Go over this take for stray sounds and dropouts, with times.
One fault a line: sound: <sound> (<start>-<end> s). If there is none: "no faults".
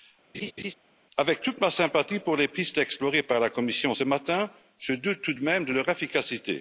sound: laugh (0.3-0.7 s)